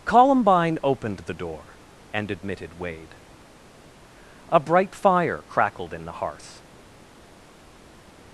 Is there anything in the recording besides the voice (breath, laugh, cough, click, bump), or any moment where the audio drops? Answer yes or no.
no